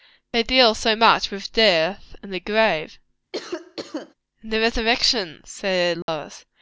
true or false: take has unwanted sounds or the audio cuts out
true